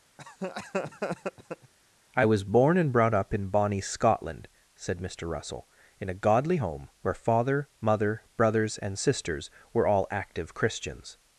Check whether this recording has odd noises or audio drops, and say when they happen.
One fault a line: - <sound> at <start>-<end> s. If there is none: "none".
- laugh at 0.2-1.7 s